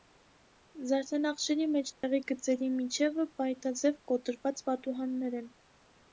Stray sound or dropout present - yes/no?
yes